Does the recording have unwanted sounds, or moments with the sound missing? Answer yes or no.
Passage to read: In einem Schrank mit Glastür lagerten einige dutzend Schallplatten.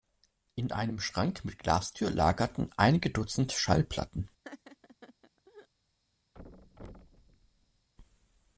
yes